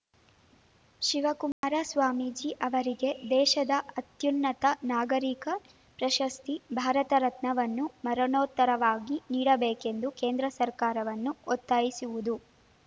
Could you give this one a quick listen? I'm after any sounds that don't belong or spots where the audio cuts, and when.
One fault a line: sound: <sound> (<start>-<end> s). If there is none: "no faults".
sound: dropout (1.5-1.6 s)